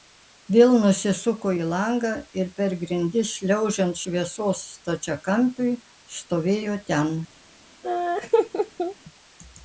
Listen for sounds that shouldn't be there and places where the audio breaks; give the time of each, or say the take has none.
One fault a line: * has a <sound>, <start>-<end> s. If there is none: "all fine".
* has a laugh, 7.8-9.0 s